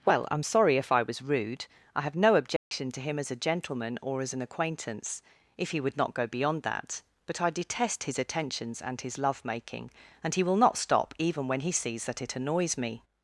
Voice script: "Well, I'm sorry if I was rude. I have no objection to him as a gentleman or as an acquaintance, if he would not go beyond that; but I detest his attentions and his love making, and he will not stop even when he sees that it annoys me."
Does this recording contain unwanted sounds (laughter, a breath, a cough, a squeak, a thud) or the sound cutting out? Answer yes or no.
yes